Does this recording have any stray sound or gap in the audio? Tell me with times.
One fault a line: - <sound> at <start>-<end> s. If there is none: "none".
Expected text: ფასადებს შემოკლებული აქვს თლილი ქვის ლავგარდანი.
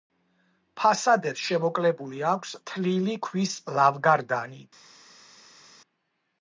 none